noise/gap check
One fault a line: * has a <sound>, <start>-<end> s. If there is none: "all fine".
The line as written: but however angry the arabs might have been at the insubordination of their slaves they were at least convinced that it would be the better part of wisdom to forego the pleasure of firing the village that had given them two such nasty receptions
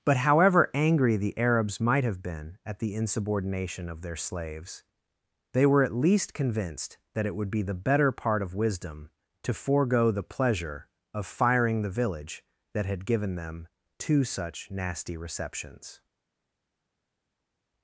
all fine